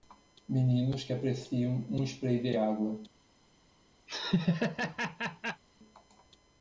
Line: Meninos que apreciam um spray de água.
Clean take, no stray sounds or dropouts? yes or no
no